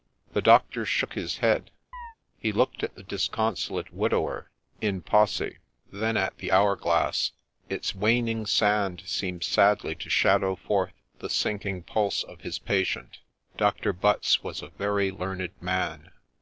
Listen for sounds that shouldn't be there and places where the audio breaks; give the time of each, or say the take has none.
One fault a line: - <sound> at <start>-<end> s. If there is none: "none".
- chirp at 1.9-2.2 s